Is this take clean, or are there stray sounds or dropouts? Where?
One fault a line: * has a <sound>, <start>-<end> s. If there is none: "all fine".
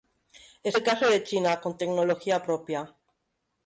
all fine